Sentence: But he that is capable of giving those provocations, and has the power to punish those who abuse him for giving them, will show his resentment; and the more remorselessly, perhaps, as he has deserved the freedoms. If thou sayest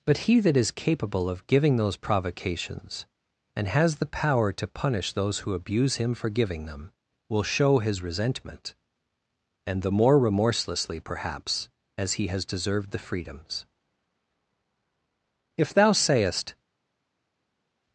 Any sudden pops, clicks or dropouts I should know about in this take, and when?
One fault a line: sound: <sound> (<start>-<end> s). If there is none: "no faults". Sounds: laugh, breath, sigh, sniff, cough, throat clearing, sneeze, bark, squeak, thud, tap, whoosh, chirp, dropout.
no faults